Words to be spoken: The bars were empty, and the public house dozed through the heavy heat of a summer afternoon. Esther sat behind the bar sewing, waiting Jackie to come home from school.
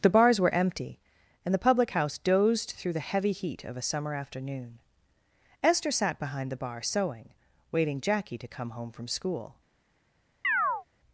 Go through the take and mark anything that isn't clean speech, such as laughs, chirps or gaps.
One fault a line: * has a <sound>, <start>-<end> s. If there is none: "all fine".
* has a chirp, 10.4-10.8 s